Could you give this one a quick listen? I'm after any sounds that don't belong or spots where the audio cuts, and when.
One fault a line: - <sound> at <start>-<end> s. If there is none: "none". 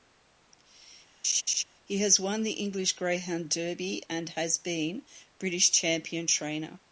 - laugh at 1.2-1.6 s